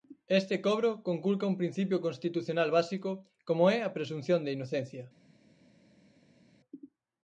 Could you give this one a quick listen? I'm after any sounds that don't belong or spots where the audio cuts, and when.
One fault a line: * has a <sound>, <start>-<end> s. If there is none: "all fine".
all fine